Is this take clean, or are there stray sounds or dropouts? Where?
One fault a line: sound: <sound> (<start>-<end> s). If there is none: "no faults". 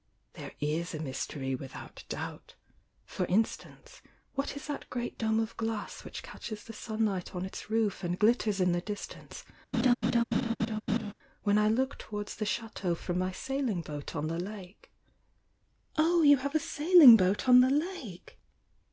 sound: laugh (9.7-11.1 s)